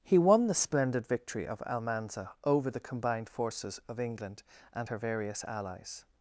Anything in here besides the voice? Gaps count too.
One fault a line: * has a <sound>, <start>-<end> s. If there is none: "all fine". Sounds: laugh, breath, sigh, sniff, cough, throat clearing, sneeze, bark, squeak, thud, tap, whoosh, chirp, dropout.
all fine